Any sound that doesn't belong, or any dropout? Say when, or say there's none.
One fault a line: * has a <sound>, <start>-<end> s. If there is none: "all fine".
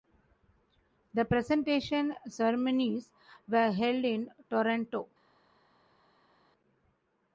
all fine